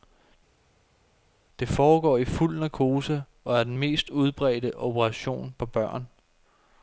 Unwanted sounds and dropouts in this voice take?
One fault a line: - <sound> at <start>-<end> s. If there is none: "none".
none